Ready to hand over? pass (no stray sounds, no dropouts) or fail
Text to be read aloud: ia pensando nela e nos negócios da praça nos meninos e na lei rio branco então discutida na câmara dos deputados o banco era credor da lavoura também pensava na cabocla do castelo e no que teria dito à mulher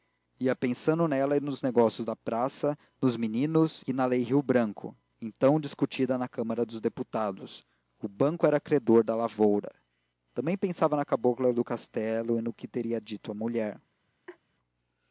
fail